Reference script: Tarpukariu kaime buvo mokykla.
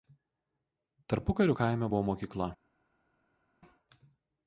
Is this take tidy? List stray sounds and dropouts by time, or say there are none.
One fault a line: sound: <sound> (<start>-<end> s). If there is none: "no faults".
no faults